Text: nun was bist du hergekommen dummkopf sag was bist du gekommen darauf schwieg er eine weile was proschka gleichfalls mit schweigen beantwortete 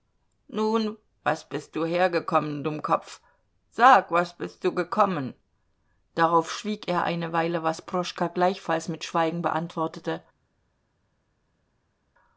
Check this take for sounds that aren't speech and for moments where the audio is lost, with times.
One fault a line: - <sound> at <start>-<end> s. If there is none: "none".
none